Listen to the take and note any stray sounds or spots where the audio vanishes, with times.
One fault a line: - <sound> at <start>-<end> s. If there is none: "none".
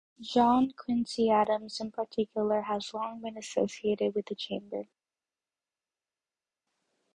none